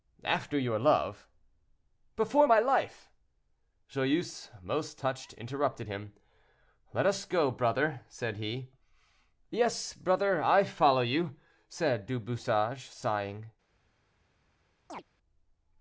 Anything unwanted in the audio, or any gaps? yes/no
yes